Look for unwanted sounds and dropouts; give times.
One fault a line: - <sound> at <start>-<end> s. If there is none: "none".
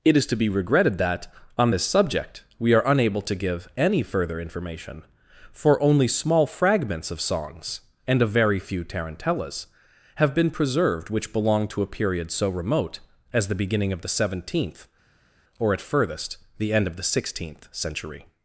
none